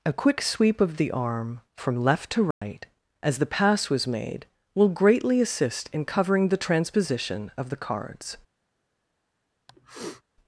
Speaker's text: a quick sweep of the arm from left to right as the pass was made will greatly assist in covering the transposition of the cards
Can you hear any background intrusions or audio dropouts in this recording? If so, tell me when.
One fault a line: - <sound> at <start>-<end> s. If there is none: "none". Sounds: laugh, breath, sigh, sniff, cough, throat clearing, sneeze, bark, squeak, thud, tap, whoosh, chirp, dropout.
- dropout at 2.5-2.6 s
- sniff at 9.7-10.2 s